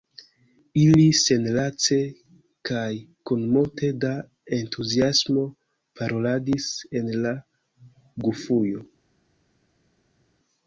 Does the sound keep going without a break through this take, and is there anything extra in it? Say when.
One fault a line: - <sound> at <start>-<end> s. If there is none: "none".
none